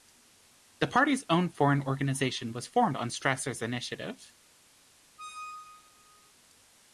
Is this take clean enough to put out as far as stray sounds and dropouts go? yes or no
no